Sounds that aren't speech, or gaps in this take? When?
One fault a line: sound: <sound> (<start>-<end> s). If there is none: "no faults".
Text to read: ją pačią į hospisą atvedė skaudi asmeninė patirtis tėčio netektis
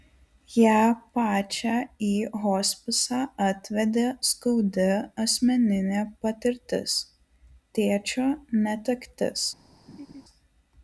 sound: laugh (9.9-10.2 s)